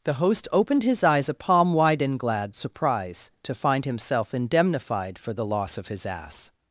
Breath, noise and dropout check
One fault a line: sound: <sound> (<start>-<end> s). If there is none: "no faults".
no faults